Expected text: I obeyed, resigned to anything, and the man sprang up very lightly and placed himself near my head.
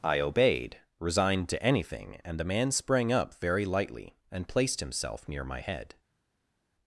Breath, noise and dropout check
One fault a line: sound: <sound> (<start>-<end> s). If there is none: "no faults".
no faults